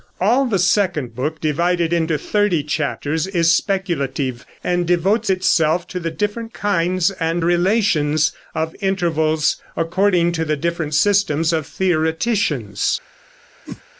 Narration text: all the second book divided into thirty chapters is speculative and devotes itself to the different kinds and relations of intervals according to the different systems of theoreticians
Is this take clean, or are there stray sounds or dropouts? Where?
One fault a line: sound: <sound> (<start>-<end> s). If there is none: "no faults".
sound: whoosh (13.7-13.8 s)